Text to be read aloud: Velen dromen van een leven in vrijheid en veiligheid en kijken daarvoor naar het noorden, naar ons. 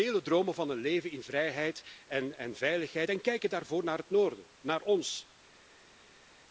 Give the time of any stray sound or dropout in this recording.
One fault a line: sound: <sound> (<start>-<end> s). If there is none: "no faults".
no faults